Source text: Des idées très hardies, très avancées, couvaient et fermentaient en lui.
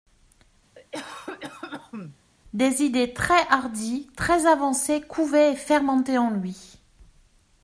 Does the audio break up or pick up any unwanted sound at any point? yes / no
yes